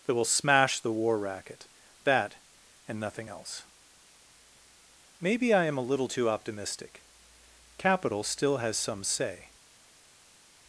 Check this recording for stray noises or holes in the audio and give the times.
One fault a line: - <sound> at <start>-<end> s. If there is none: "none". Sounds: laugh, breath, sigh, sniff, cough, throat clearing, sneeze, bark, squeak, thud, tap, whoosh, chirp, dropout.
none